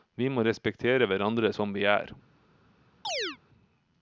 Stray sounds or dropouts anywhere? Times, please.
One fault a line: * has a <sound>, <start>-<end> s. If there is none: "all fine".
* has a chirp, 3.0-3.4 s